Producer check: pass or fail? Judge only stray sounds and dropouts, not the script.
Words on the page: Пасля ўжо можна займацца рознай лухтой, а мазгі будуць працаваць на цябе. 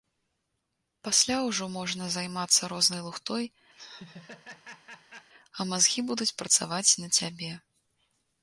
fail